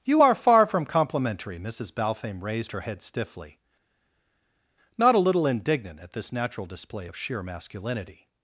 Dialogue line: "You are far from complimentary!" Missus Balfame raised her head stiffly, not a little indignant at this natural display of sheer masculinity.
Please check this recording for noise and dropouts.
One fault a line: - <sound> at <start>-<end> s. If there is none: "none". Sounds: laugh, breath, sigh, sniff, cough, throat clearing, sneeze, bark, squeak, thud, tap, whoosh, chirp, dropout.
none